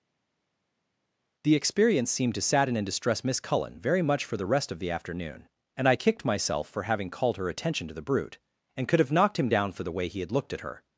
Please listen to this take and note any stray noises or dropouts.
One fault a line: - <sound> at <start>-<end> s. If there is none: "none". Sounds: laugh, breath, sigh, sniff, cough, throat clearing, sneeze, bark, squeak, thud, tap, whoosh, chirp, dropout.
none